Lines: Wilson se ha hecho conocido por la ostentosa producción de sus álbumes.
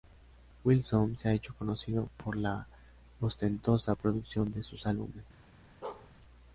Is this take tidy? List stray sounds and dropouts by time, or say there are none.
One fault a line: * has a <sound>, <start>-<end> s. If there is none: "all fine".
* has a bark, 5.8-6.1 s